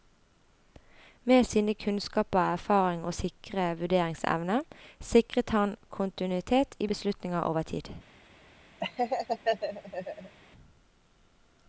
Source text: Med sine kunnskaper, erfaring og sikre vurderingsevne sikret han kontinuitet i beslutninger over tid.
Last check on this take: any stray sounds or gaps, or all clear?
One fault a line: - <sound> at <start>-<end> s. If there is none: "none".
- laugh at 8.8-10.4 s